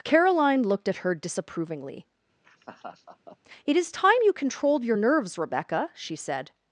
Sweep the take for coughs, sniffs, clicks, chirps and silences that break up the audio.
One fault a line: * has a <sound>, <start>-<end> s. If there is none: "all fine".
* has a laugh, 2.4-3.4 s